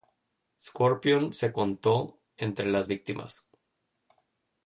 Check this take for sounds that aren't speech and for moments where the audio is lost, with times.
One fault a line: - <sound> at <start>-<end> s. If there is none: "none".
none